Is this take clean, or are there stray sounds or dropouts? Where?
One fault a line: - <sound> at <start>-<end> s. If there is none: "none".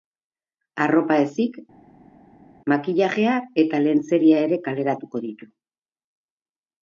none